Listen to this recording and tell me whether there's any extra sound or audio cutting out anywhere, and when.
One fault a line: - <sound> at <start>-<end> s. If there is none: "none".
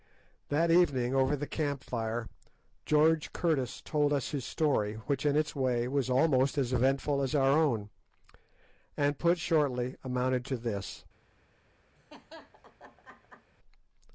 - laugh at 12.0-13.5 s